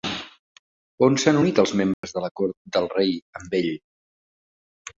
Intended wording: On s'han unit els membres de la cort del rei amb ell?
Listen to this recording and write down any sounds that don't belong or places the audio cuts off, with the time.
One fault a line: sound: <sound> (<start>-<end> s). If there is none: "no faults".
sound: dropout (1.9-2.0 s)